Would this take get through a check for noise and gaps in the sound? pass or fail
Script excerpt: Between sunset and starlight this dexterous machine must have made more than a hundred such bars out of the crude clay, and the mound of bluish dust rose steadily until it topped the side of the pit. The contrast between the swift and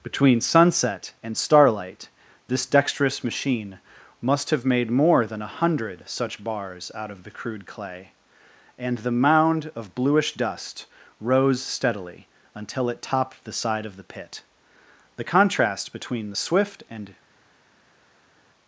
pass